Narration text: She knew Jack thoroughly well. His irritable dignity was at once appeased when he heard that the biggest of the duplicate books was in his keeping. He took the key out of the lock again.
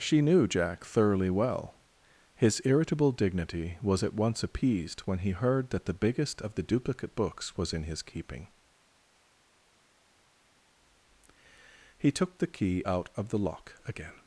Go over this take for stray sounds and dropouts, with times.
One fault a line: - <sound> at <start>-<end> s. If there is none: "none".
none